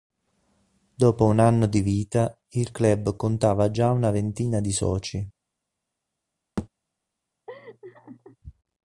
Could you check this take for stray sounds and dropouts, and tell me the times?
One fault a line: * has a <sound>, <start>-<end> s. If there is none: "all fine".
* has a thud, 6.6-6.7 s
* has a laugh, 7.5-8.4 s